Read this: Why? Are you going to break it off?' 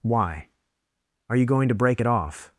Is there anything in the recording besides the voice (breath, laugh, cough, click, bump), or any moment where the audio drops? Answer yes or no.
no